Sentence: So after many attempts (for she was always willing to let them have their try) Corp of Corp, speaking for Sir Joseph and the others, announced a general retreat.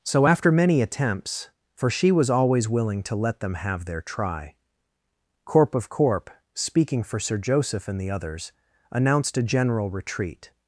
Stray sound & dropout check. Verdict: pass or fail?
pass